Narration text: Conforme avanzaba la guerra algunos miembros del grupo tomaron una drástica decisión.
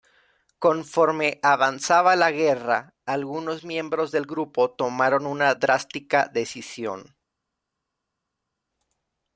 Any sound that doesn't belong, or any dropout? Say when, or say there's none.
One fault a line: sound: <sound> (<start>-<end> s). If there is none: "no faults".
no faults